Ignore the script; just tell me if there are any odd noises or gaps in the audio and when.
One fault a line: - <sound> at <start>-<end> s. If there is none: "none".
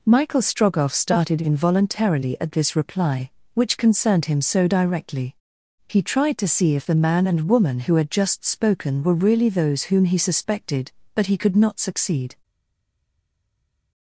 none